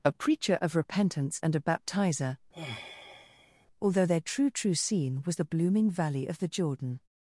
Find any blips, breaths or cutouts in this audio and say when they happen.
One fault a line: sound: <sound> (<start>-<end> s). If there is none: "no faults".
sound: sigh (2.5-3.7 s)